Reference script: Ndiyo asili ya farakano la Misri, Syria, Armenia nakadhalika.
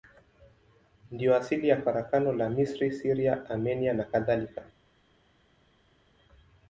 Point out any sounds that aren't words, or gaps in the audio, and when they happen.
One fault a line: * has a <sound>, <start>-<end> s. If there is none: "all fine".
all fine